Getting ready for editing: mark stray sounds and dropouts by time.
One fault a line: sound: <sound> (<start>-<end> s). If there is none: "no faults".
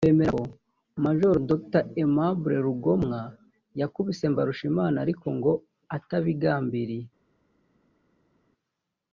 no faults